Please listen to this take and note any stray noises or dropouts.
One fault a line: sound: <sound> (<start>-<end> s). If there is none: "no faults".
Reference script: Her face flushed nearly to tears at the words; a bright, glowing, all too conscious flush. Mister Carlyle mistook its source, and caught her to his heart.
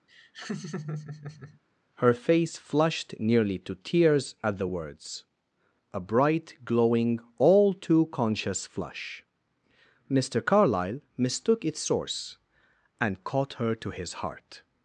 sound: laugh (0.1-1.6 s)